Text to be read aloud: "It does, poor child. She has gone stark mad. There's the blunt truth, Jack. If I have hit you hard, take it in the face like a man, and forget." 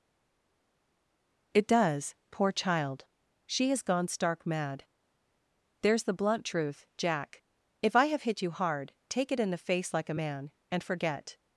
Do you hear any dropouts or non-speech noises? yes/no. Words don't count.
no